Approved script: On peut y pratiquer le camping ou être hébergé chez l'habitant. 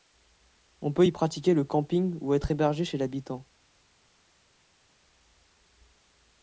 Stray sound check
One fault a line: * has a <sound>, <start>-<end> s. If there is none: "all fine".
all fine